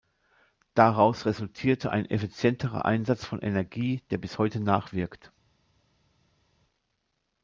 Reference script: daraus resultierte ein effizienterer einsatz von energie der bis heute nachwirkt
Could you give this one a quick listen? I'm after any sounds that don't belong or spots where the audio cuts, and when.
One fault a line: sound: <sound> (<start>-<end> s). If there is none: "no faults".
no faults